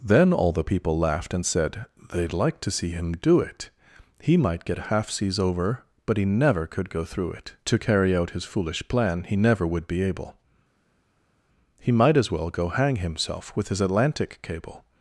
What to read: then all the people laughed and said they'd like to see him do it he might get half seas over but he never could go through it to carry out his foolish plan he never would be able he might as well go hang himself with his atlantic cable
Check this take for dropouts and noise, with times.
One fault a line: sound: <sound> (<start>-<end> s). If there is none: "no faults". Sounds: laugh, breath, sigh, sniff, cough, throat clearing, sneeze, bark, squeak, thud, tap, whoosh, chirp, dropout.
no faults